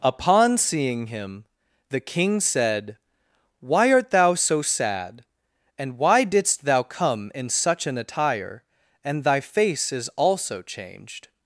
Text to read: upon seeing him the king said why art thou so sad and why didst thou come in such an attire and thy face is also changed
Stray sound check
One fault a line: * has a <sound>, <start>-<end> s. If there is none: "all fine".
all fine